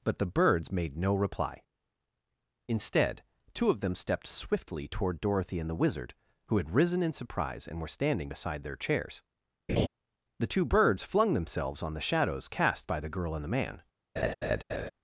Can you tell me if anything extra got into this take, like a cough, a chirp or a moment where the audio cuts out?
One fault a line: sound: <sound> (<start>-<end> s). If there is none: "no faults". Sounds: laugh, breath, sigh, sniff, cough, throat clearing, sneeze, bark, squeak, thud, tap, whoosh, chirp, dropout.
sound: laugh (9.7-9.9 s)
sound: laugh (14.2-14.9 s)